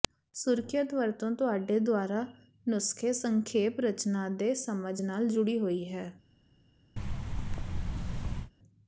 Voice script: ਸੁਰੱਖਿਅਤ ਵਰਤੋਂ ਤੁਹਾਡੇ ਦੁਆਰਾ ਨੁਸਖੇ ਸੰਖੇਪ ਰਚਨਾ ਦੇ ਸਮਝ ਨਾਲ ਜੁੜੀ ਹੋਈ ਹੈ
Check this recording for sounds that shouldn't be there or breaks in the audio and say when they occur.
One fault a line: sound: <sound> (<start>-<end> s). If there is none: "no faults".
sound: thud (7.0-8.5 s)